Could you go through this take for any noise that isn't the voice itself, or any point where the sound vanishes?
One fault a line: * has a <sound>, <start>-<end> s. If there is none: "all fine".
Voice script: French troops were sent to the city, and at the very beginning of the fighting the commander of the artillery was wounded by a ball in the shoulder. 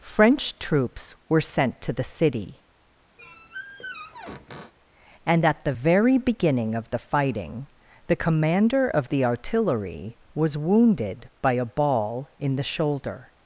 * has a squeak, 3.2-4.7 s